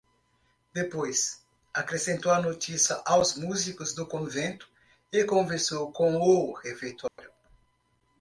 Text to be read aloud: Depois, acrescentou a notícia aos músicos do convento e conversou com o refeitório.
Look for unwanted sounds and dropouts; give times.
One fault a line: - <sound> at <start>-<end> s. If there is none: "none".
- dropout at 7.1-7.2 s